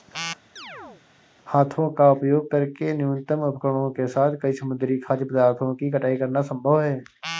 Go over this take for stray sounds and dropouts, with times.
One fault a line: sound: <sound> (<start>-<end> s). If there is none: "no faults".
sound: chirp (0.6-1.0 s)